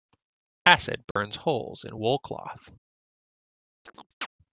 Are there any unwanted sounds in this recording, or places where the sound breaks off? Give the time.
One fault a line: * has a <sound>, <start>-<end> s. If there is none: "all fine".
* has a dropout, 1.1-1.2 s
* has a chirp, 3.9-4.3 s